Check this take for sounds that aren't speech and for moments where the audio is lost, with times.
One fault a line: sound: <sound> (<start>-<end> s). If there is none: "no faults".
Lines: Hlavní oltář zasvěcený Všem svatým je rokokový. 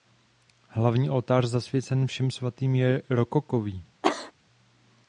sound: cough (4.0-4.3 s)